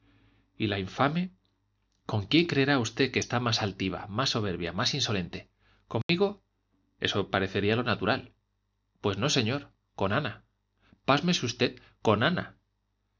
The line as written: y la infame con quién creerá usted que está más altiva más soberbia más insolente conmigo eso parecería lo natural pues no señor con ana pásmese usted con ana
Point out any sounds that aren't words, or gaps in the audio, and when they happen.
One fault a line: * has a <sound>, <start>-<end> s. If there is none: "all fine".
* has a dropout, 6.0-6.1 s